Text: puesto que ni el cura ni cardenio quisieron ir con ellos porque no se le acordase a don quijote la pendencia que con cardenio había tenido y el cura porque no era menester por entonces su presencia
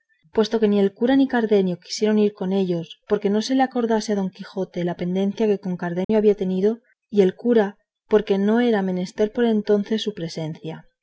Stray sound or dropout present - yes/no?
yes